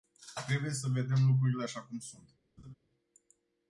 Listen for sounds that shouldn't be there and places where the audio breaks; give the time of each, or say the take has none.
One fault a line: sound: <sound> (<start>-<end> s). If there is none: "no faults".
sound: laugh (2.6-2.7 s)